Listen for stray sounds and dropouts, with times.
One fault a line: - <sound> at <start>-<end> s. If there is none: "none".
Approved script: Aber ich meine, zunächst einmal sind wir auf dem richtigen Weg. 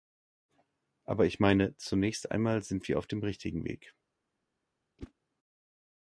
- whoosh at 5.0-5.1 s